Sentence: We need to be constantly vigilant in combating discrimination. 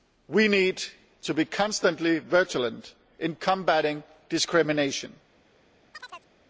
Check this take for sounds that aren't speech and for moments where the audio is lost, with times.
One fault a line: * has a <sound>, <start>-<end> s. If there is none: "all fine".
* has a chirp, 5.9-6.3 s